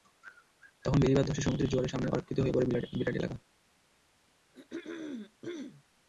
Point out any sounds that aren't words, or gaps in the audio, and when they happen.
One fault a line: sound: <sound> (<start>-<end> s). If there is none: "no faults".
sound: throat clearing (4.5-5.8 s)